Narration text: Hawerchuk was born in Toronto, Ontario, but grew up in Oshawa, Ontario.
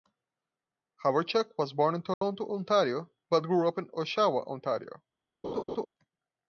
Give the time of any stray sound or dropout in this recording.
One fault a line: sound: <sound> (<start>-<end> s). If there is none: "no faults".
sound: dropout (2.1-2.2 s)
sound: laugh (5.4-5.9 s)